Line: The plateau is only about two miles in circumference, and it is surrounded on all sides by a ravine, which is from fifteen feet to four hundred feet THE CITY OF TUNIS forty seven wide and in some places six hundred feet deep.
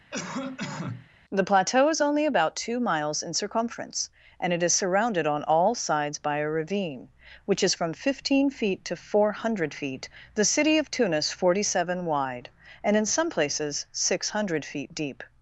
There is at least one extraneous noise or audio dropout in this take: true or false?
true